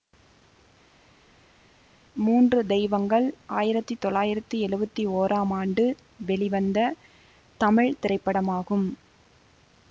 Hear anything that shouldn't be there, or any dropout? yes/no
no